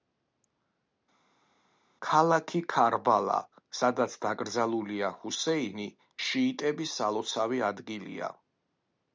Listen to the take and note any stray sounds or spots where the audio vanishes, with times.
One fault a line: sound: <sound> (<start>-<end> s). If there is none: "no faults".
no faults